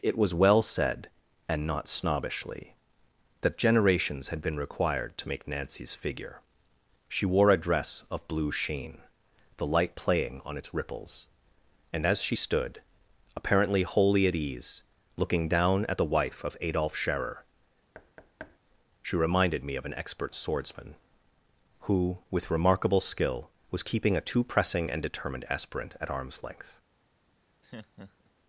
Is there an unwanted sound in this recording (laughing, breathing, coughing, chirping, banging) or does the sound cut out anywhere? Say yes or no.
yes